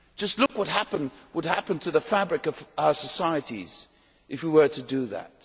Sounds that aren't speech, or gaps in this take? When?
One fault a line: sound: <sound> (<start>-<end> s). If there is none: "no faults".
sound: dropout (0.5-0.5 s)